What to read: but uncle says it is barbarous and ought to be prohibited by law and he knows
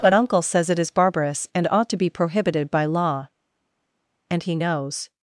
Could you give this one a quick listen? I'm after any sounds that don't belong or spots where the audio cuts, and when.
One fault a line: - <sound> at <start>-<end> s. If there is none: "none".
none